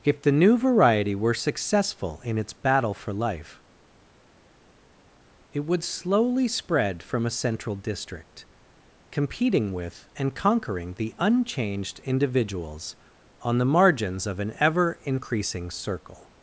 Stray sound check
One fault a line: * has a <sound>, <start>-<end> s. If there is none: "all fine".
all fine